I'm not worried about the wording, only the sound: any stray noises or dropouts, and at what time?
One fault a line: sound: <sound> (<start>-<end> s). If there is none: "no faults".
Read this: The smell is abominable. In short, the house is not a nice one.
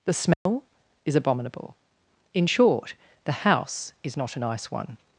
sound: dropout (0.3-0.5 s)